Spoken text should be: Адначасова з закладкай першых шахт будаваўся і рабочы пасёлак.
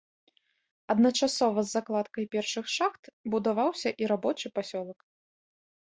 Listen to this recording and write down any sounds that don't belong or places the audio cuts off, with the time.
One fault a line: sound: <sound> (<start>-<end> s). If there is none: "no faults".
no faults